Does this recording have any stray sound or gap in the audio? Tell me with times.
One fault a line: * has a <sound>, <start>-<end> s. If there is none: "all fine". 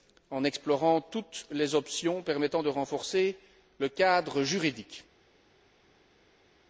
all fine